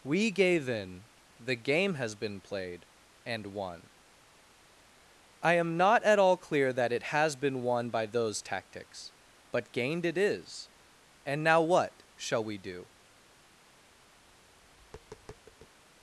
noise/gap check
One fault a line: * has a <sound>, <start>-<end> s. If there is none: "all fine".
* has a tap, 14.2-15.7 s